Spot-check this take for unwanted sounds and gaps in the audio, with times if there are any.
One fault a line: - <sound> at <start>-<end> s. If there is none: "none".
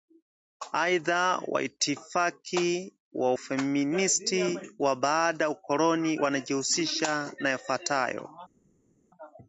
none